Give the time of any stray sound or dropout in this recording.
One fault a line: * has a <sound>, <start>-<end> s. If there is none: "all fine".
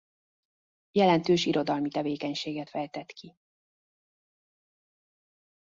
all fine